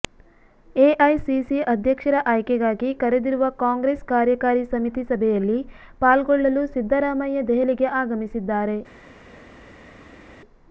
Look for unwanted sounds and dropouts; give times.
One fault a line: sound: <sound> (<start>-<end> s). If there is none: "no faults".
no faults